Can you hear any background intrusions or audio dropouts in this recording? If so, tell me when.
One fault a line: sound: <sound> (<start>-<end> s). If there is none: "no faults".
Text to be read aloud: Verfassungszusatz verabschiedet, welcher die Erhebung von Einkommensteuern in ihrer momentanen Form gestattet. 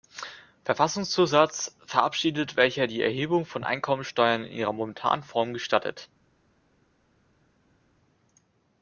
no faults